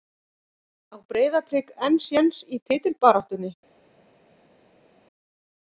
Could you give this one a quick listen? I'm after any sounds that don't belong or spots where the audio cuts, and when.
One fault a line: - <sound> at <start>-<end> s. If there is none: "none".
none